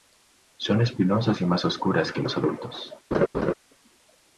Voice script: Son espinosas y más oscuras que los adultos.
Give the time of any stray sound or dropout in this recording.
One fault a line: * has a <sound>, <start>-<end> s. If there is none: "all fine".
* has a laugh, 3.1-3.5 s